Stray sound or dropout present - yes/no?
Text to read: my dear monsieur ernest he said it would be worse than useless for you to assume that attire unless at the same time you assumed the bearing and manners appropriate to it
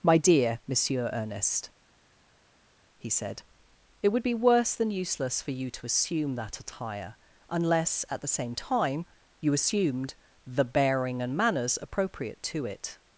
no